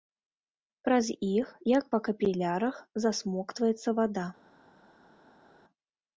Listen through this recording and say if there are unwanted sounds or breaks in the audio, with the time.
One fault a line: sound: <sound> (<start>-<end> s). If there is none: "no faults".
no faults